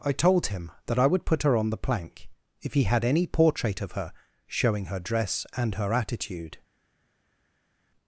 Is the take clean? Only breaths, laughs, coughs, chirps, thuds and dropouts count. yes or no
yes